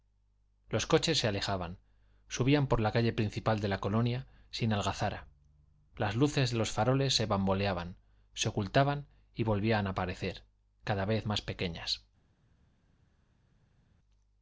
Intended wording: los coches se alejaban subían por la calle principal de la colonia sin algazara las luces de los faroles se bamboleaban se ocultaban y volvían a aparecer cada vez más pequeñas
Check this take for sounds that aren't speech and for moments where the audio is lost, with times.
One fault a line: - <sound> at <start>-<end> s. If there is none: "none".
none